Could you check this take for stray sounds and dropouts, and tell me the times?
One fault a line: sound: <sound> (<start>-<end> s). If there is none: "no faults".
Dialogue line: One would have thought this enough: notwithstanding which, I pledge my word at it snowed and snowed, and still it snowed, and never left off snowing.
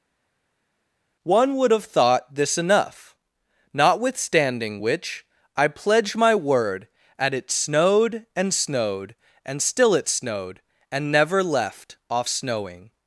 no faults